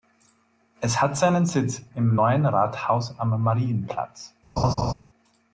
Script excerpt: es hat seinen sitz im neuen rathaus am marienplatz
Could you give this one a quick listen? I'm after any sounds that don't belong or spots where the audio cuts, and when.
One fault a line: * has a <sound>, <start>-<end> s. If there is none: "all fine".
* has a laugh, 4.6-4.9 s